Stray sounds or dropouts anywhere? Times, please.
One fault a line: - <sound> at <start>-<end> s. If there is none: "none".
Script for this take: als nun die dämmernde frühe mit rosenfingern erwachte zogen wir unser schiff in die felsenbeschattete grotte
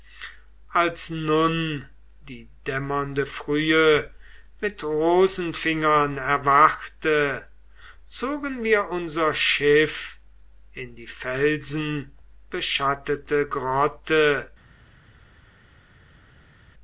none